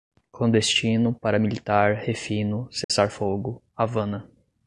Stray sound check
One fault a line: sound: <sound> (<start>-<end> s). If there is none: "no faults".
sound: dropout (2.8-2.9 s)